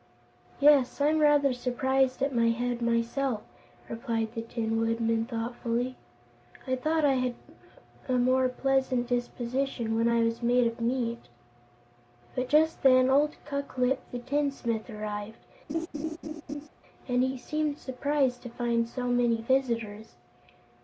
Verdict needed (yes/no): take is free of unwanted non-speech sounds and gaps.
no